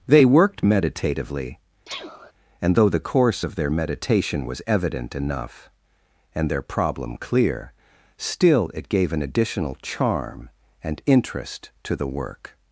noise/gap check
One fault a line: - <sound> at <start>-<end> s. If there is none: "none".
- sneeze at 1.9-2.3 s